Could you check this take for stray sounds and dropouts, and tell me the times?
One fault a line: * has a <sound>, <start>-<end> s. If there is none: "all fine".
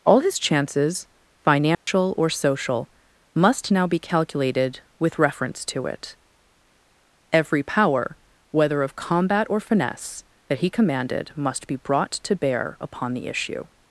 * has a dropout, 1.7-1.9 s